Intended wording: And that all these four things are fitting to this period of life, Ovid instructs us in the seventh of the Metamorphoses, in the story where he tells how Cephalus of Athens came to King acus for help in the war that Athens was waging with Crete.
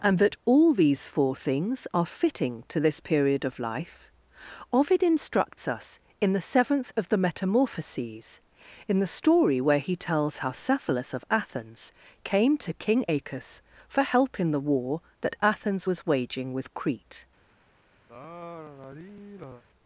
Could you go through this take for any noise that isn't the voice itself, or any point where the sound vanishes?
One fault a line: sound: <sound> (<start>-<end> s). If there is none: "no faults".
sound: sigh (18.1-19.6 s)